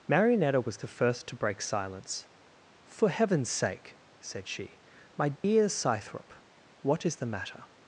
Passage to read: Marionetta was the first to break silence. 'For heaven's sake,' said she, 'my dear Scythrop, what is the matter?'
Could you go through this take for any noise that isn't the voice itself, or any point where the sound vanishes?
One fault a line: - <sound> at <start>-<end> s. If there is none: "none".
- dropout at 5.4-5.4 s